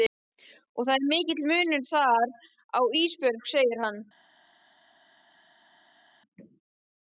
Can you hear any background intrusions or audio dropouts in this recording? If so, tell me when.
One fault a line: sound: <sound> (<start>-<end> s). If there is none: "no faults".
no faults